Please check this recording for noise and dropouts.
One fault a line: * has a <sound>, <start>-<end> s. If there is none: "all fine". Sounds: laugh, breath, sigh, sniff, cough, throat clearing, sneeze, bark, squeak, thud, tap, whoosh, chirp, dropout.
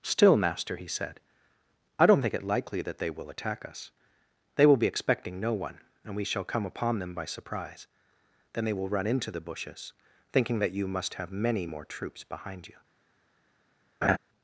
* has a laugh, 14.0-14.2 s